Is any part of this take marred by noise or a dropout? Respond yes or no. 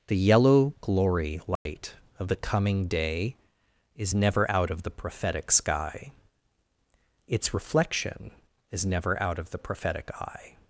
yes